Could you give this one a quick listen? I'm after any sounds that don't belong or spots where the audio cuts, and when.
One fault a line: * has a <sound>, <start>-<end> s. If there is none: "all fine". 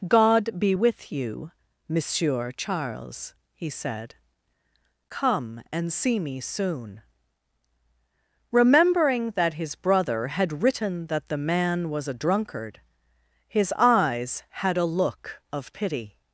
all fine